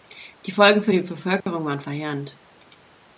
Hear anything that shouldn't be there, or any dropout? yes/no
yes